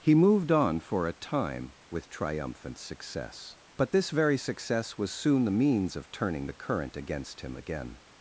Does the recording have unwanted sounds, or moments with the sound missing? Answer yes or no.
no